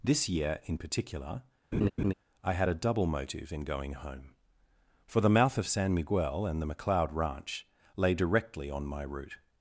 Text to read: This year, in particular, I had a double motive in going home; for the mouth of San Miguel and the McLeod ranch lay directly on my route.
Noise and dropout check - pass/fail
fail